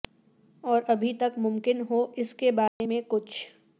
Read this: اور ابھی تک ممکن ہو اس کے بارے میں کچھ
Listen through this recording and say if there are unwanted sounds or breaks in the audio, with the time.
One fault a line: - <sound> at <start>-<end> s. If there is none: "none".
- dropout at 2.7-2.8 s